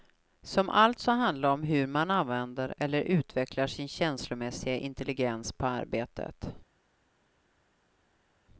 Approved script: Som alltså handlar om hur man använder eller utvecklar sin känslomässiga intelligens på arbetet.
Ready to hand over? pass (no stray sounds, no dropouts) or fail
pass